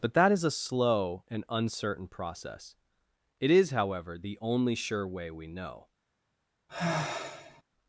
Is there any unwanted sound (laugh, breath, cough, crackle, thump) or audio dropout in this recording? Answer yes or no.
yes